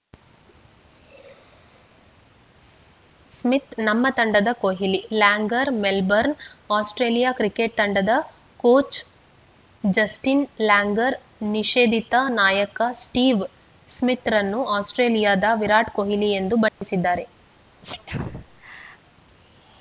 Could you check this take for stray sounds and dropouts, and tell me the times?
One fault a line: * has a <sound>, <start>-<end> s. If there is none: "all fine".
* has a dropout, 16.7-16.8 s
* has a sneeze, 17.8-19.0 s